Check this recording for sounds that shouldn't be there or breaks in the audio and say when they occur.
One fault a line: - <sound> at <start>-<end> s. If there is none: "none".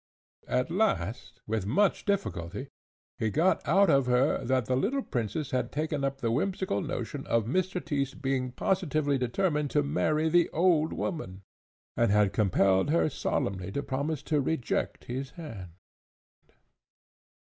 none